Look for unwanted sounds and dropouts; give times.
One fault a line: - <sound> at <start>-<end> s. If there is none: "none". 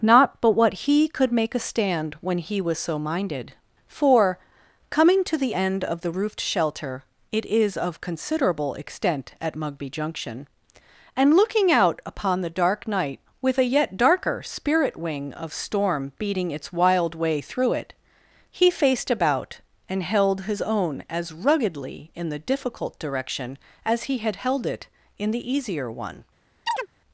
- chirp at 26.7-26.9 s